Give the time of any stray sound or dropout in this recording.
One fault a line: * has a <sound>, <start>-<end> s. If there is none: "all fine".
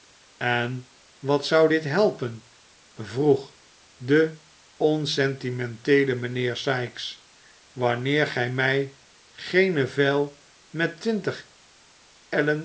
all fine